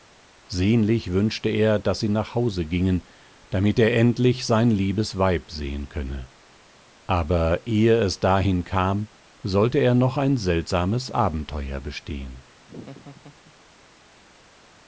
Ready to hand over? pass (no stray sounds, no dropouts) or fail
fail